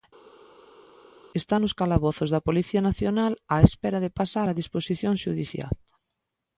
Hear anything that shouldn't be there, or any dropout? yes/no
no